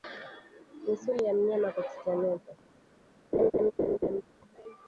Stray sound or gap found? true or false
true